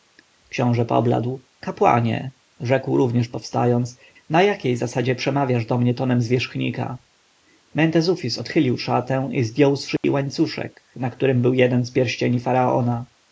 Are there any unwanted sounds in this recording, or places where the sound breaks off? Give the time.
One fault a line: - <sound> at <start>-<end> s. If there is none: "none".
- dropout at 10.0-10.0 s